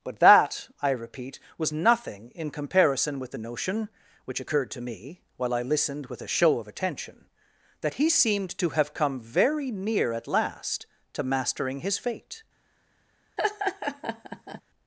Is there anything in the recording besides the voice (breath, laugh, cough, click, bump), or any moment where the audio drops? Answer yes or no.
yes